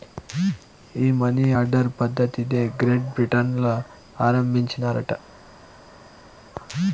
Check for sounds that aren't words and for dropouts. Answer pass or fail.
pass